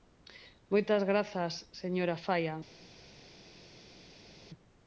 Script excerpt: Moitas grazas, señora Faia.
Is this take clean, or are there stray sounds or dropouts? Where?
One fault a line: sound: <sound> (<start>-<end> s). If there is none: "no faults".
no faults